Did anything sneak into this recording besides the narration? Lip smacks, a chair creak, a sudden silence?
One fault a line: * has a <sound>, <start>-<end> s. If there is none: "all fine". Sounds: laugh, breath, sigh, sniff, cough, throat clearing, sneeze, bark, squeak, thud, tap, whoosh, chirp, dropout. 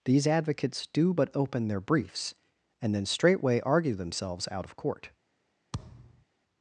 * has a thud, 5.7-6.2 s